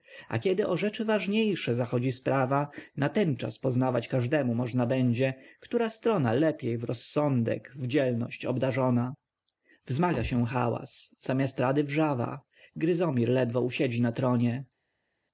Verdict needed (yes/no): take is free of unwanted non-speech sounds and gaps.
yes